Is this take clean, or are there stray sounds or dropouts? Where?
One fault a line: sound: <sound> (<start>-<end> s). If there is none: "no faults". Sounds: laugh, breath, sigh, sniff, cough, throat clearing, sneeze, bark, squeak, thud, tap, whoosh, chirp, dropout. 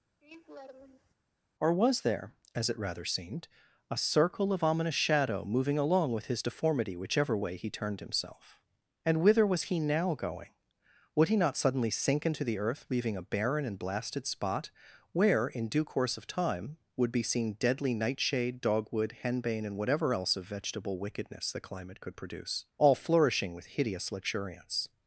sound: laugh (0.2-1.1 s)